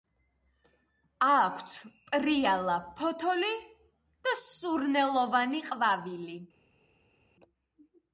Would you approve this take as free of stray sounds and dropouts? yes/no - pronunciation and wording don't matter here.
yes